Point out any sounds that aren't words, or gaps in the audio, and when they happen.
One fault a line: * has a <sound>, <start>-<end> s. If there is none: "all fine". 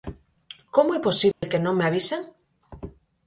* has a dropout, 1.3-1.4 s